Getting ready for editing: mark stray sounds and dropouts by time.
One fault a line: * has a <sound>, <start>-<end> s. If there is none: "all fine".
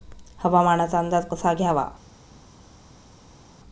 all fine